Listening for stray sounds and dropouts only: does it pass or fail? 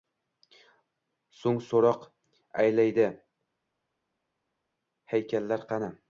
pass